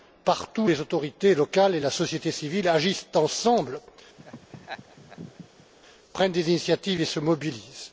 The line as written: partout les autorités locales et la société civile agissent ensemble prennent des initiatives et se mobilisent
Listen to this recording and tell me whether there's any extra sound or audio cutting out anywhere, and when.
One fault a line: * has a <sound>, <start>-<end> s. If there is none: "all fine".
* has a laugh, 4.2-5.7 s